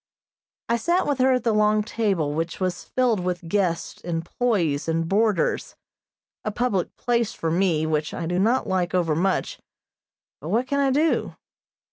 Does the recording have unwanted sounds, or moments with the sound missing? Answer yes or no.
no